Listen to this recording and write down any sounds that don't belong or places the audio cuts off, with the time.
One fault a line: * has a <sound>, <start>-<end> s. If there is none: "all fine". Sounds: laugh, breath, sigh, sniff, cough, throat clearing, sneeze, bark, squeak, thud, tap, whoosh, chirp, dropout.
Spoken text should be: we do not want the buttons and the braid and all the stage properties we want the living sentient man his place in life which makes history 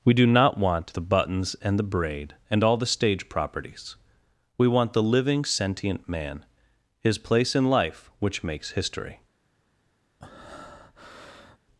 * has a breath, 10.2-11.6 s